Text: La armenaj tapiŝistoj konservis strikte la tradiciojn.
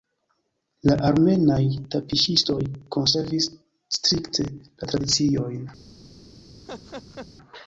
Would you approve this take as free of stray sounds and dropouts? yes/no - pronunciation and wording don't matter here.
no